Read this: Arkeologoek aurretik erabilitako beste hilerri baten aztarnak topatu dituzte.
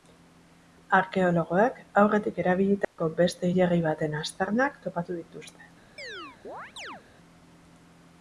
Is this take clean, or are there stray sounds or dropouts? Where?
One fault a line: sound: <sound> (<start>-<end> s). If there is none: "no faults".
sound: dropout (2.8-3.0 s)
sound: chirp (6.0-7.0 s)